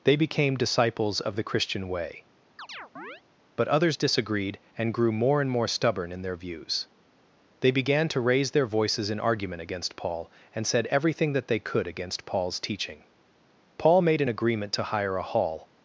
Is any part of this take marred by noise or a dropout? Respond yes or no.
yes